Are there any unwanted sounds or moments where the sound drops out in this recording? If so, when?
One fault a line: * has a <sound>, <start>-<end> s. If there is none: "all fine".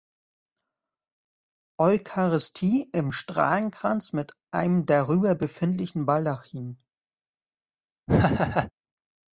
* has a laugh, 8.1-8.7 s